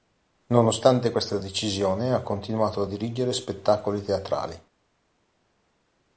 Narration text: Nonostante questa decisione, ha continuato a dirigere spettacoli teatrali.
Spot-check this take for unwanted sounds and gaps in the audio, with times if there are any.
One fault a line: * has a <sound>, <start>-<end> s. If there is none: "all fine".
all fine